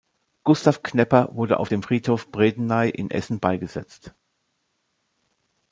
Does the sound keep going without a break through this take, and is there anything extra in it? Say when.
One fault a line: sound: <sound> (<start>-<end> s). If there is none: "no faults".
no faults